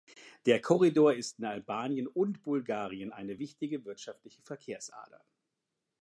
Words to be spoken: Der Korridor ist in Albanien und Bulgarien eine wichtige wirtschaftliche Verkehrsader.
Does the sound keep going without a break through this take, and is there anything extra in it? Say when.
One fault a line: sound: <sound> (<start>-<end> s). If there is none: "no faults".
no faults